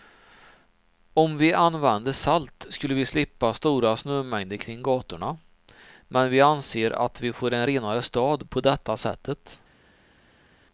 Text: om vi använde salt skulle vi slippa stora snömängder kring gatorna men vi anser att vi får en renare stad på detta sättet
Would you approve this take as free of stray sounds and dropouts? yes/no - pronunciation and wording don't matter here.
yes